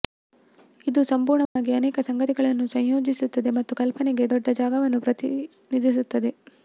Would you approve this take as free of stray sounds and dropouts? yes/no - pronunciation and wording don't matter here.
no